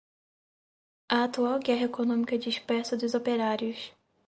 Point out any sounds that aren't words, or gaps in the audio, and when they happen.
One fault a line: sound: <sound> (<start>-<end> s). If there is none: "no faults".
no faults